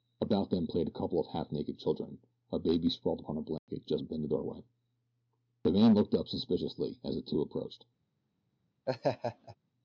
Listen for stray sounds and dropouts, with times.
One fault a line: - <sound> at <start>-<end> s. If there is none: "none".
- dropout at 3.6-3.7 s
- laugh at 8.9-9.6 s